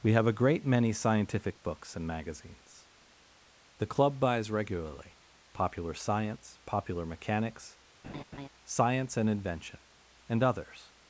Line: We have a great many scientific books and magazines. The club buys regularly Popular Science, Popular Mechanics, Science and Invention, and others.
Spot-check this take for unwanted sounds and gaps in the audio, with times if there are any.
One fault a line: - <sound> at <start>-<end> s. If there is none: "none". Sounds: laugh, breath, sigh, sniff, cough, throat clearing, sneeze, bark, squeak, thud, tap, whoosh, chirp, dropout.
- laugh at 8.0-8.5 s